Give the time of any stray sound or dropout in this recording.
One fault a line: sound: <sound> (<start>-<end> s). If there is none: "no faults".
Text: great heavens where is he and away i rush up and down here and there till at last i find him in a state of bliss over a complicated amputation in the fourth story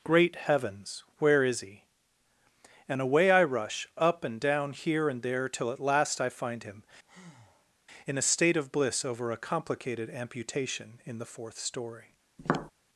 sound: breath (7.0-7.7 s)
sound: tap (12.4-12.7 s)